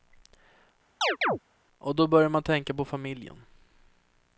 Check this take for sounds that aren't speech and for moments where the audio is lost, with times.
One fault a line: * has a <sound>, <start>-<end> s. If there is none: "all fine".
* has a chirp, 1.0-1.4 s